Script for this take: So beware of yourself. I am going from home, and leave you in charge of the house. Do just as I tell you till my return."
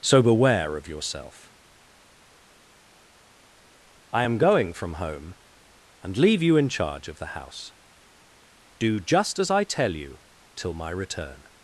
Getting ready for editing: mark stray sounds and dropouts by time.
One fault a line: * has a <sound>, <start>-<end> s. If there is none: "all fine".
all fine